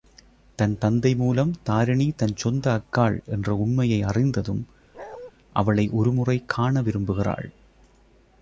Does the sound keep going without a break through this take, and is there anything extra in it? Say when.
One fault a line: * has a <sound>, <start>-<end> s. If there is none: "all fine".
* has a bark, 4.9-5.3 s